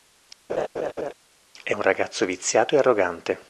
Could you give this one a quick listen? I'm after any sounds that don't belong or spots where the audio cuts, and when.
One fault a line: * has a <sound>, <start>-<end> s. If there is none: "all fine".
* has a laugh, 0.5-1.1 s